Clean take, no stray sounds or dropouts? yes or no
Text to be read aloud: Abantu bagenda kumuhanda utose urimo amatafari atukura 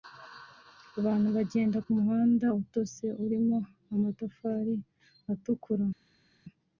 yes